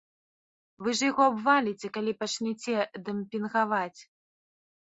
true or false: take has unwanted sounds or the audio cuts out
false